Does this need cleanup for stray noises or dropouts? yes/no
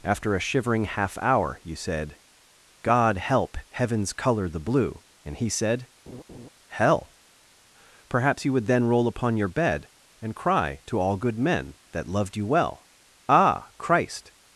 yes